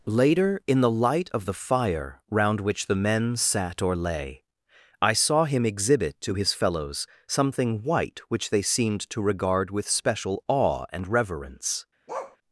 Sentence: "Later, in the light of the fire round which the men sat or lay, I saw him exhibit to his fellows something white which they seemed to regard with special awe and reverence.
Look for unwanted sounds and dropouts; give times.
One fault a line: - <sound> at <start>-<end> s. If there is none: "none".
- bark at 12.1-12.4 s